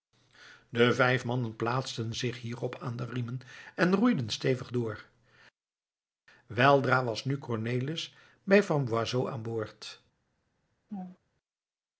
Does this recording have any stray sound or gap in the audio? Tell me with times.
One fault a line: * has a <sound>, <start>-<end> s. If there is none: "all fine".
* has a laugh, 10.9-11.2 s